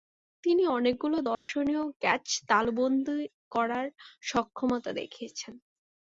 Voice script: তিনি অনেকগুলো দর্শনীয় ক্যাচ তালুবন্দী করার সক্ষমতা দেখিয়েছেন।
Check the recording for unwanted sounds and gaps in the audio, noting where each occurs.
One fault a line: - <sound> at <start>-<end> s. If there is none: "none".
- dropout at 1.3-1.5 s